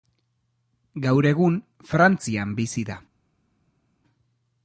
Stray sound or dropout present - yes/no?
no